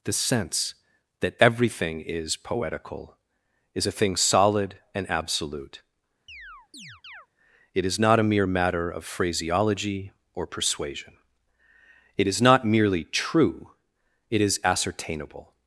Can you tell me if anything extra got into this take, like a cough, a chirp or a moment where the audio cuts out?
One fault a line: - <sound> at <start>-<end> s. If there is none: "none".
- chirp at 6.3-7.3 s